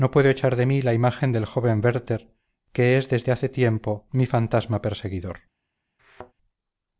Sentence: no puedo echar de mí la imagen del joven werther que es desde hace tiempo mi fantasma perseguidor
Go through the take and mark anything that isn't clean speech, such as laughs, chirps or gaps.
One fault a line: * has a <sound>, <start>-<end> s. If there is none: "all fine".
* has a thud, 6.0-6.3 s